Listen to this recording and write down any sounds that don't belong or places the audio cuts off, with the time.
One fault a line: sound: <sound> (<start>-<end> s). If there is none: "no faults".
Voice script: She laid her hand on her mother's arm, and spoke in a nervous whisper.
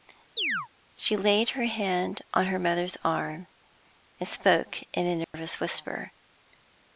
sound: chirp (0.4-0.7 s)
sound: dropout (5.2-5.3 s)